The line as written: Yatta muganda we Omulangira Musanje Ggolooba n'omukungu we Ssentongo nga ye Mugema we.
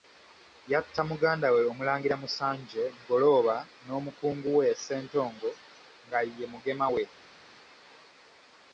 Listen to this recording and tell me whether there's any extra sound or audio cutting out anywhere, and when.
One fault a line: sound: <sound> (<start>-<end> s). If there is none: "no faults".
no faults